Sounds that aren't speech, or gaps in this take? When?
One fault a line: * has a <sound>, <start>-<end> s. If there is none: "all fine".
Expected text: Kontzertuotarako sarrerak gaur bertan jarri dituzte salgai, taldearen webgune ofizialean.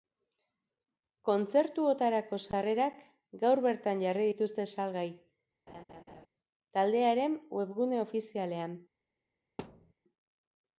* has a laugh, 5.7-6.3 s
* has a thud, 9.6-9.9 s